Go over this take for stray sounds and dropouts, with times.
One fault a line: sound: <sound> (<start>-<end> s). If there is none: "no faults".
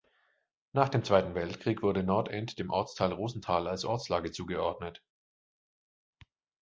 no faults